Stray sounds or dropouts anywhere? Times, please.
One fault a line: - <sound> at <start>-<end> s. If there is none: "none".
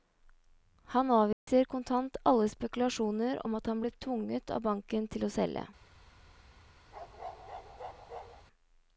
- dropout at 1.3-1.5 s
- bark at 6.9-8.5 s